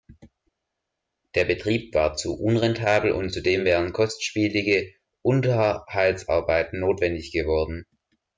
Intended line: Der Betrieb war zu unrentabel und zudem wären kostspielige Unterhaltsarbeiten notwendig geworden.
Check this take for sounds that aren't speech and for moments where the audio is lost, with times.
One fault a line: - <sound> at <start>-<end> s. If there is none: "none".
none